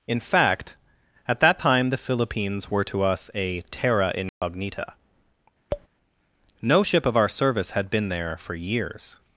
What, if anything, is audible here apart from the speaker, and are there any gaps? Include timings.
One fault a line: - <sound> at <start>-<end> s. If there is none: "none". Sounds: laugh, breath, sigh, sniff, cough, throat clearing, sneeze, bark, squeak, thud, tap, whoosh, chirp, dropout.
- dropout at 4.3-4.4 s
- tap at 5.7-5.9 s